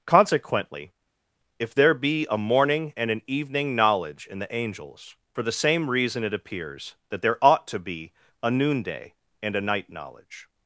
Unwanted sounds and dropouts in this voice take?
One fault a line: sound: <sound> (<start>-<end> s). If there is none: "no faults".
no faults